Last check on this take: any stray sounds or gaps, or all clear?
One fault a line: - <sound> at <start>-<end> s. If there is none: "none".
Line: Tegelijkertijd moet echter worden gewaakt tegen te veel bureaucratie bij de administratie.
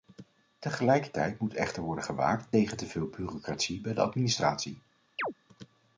- chirp at 5.2-5.3 s